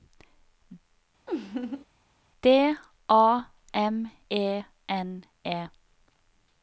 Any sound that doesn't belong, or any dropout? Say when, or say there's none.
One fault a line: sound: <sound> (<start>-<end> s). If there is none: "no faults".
sound: laugh (1.3-1.8 s)